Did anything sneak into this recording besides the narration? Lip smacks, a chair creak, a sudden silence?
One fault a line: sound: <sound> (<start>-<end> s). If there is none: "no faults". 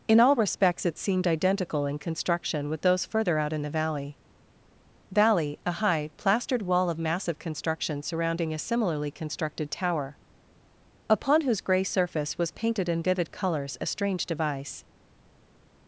no faults